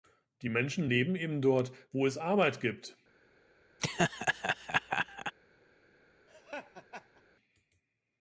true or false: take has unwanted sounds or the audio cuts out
true